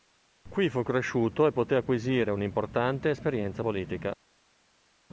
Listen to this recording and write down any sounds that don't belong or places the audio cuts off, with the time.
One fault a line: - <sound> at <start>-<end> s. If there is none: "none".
none